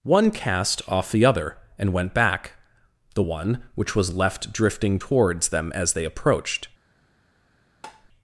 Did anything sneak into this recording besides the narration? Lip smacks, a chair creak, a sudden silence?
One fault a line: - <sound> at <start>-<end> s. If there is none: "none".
- tap at 7.8-8.1 s